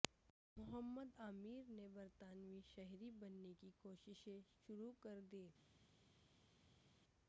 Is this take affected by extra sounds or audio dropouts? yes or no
no